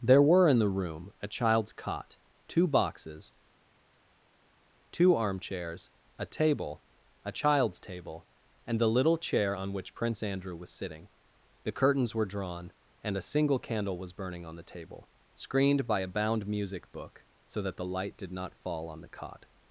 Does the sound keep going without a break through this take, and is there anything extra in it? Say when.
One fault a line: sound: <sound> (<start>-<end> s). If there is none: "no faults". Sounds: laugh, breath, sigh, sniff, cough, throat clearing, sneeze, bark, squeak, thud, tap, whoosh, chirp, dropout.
no faults